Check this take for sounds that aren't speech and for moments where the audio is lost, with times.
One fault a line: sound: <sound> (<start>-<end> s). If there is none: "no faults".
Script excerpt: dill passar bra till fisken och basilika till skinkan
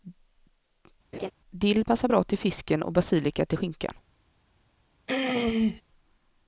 sound: laugh (1.1-1.3 s)
sound: throat clearing (5.1-5.8 s)